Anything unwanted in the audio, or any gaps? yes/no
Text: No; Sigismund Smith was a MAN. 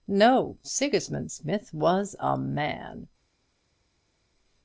no